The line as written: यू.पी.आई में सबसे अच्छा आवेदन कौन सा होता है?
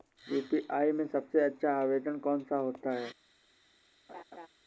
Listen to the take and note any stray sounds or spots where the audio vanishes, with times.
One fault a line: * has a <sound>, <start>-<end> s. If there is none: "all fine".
* has a laugh, 4.1-4.5 s